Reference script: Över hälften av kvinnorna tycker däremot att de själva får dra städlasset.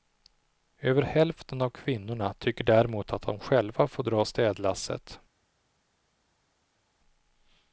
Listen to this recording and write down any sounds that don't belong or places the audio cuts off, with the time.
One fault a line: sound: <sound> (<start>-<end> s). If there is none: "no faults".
no faults